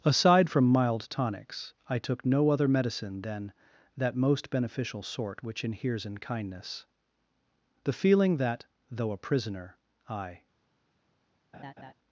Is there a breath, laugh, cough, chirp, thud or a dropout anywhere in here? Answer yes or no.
yes